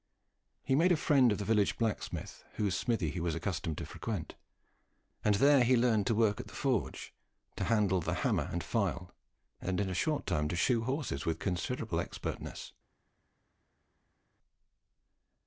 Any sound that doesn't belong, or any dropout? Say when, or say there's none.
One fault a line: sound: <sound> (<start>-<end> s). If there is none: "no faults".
no faults